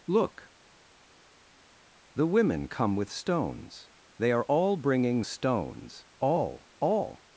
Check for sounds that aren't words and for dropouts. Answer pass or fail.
pass